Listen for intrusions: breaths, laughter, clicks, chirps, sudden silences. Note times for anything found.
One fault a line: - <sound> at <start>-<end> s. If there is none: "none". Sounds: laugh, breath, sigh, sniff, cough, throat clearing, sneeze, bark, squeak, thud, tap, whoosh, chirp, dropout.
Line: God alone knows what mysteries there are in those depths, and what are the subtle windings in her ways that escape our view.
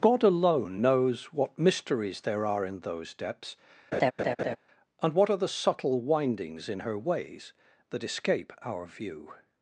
- laugh at 3.9-4.6 s